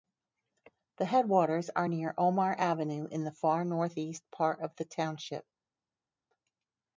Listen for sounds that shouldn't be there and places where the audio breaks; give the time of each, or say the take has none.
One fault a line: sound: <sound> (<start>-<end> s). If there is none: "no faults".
no faults